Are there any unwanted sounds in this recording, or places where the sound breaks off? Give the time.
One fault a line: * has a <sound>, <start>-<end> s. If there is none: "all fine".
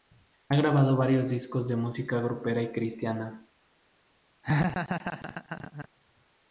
* has a laugh, 4.4-5.9 s